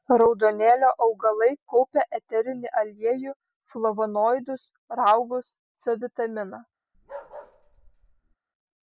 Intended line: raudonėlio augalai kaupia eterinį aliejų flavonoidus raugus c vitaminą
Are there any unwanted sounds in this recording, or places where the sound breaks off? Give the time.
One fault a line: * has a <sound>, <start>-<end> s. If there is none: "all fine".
* has a bark, 6.9-8.4 s